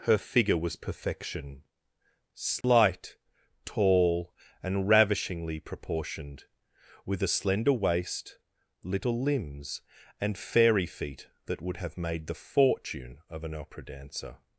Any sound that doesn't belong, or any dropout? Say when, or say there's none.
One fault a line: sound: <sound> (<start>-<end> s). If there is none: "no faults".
sound: dropout (2.6-2.6 s)